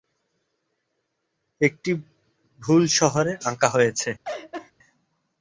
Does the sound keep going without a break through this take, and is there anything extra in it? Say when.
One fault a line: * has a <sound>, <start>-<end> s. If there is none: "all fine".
* has a laugh, 4.2-4.7 s